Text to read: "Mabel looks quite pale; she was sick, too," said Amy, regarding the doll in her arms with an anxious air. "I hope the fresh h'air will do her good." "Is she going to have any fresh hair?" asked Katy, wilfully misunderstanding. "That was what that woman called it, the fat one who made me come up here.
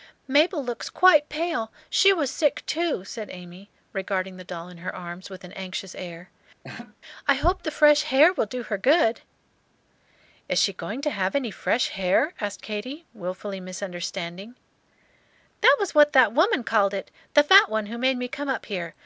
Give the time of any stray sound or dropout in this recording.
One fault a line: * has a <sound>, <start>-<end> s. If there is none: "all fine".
* has a laugh, 6.6-7.0 s